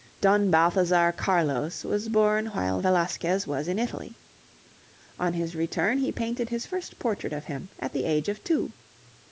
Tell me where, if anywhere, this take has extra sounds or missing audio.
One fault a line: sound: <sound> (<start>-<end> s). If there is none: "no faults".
no faults